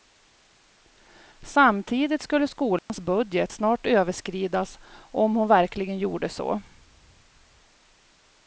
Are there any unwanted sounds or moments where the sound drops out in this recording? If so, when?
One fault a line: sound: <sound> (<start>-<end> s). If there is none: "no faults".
sound: dropout (2.8-2.9 s)